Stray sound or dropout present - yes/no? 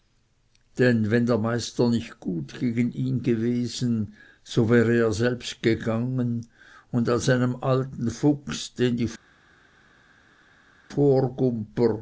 no